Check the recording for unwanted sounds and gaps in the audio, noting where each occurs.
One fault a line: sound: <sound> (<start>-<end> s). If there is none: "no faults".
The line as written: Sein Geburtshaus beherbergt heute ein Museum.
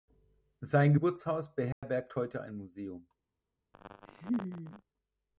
sound: dropout (1.7-1.8 s)
sound: laugh (3.7-4.8 s)